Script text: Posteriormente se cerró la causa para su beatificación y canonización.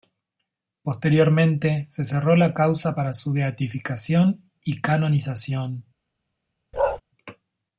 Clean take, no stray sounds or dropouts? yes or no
no